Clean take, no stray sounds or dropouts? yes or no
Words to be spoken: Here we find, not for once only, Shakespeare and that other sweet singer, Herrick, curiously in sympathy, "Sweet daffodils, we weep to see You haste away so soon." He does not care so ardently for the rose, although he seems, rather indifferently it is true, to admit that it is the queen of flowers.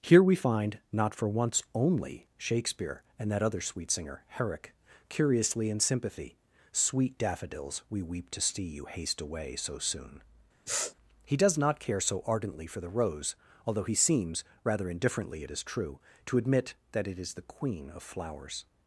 no